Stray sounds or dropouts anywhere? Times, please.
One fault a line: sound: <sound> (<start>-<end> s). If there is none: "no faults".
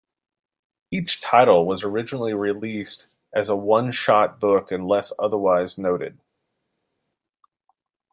no faults